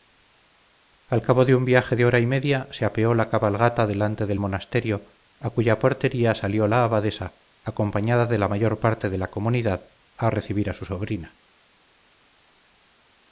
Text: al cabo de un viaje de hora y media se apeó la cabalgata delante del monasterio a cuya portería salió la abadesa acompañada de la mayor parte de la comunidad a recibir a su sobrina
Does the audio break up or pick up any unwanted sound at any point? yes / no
no